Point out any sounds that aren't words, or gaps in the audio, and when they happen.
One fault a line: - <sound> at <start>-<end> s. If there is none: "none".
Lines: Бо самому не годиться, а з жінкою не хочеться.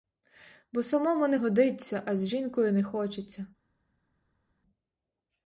none